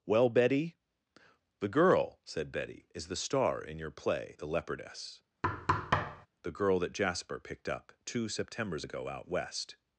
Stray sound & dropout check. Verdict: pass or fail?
fail